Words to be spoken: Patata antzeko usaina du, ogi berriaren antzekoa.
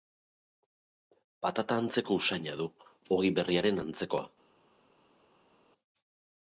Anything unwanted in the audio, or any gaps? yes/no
no